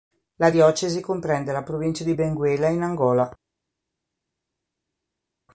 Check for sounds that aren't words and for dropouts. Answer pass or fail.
pass